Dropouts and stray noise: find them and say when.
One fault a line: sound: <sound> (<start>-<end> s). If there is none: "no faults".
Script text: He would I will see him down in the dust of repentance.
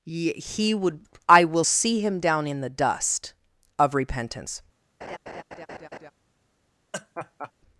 sound: laugh (5.0-6.1 s)
sound: laugh (6.9-7.5 s)